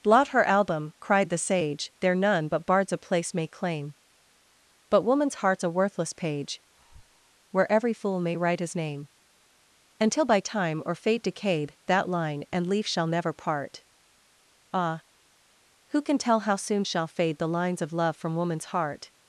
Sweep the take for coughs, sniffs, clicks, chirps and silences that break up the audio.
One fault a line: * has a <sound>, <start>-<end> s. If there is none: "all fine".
* has a breath, 6.7-7.4 s